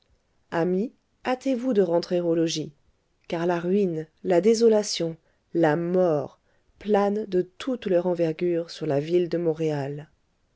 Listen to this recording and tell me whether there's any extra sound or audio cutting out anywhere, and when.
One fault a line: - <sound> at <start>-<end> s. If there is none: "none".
none